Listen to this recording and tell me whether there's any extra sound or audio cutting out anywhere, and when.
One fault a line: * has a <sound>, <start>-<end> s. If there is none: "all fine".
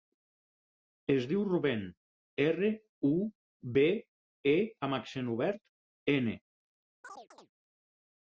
* has a chirp, 7.0-7.5 s